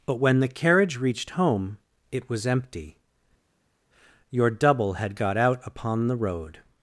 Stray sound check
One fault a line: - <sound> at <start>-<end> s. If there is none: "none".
none